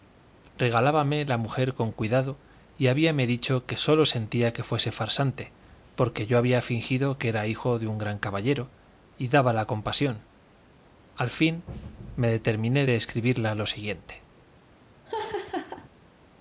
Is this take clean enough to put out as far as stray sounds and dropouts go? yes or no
no